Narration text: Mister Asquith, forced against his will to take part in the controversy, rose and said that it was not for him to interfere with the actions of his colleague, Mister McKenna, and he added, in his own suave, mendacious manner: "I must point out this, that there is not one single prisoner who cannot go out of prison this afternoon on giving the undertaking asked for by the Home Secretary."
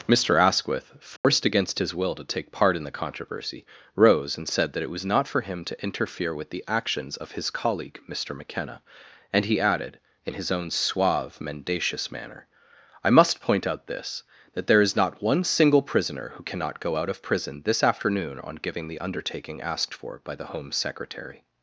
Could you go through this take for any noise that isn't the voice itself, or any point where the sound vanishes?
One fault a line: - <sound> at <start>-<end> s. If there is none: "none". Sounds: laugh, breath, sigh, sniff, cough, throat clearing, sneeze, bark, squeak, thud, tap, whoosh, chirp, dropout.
- dropout at 1.2-1.2 s